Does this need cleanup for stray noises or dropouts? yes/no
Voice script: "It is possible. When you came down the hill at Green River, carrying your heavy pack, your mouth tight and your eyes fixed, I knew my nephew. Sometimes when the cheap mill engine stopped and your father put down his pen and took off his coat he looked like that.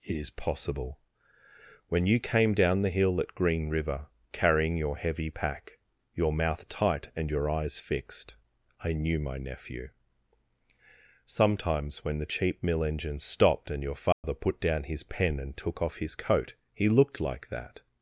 yes